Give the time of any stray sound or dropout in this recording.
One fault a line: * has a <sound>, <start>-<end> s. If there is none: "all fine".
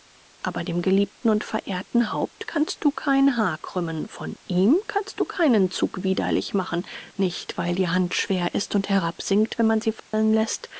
* has a dropout, 10.0-10.1 s